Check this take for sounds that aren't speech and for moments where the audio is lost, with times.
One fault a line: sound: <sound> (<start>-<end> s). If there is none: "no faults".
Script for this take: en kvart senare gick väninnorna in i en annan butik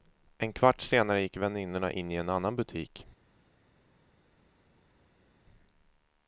no faults